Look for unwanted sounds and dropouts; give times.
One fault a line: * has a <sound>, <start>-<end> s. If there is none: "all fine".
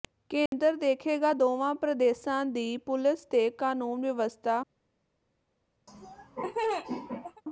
* has a dropout, 0.5-0.5 s
* has a laugh, 5.9-7.4 s